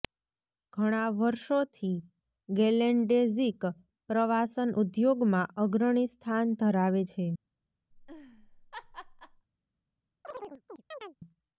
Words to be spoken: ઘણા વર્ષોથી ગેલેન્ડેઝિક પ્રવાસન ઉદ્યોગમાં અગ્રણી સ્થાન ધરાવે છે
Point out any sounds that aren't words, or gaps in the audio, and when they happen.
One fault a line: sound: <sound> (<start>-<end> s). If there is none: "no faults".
sound: laugh (7.9-9.5 s)
sound: chirp (10.2-11.2 s)